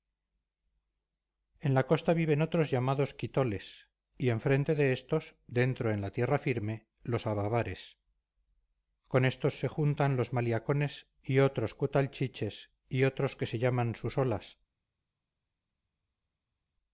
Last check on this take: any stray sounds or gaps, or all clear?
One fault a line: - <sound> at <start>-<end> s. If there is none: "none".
none